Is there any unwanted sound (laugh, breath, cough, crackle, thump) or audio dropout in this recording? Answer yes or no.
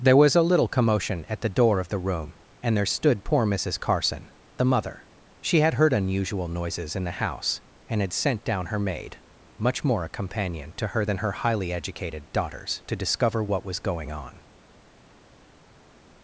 no